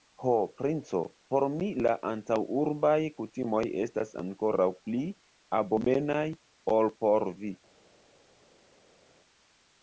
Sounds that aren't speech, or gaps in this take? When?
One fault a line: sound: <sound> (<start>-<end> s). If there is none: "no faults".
no faults